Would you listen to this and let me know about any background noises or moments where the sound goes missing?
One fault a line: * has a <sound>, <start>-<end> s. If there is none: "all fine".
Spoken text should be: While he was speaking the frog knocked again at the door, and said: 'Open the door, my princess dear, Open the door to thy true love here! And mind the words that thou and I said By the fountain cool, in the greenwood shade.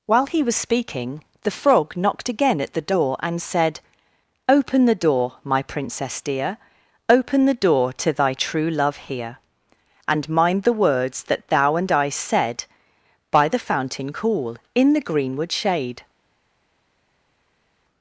all fine